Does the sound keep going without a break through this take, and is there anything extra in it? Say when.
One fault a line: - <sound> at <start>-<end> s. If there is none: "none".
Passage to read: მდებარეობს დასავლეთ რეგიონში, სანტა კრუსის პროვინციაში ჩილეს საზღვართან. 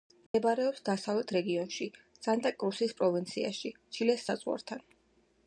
- dropout at 0.3-0.3 s